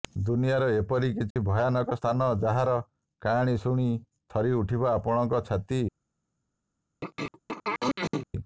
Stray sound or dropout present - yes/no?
yes